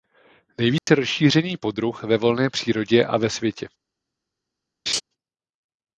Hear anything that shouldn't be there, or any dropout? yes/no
yes